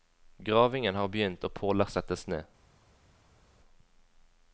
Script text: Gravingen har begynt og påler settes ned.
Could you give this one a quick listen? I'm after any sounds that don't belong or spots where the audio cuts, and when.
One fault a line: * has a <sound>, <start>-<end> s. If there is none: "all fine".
all fine